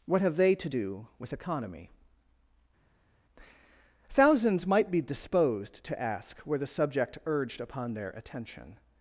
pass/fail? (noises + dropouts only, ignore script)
pass